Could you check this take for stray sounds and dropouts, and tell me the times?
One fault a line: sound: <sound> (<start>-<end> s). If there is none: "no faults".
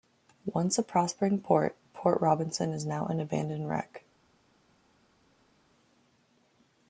no faults